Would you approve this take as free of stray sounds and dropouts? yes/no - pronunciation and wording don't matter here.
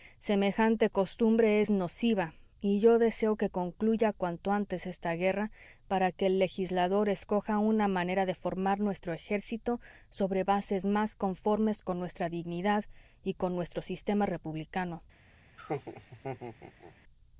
no